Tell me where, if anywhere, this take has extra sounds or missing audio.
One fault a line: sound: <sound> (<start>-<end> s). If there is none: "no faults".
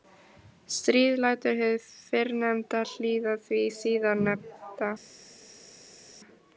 no faults